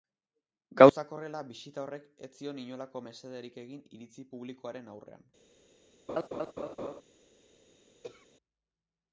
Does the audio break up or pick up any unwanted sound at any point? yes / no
yes